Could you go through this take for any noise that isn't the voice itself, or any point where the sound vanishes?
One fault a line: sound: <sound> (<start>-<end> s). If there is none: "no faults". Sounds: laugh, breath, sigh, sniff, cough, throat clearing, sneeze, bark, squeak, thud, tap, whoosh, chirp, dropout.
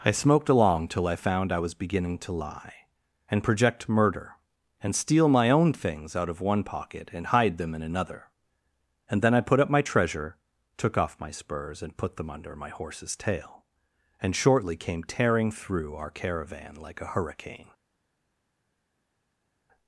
no faults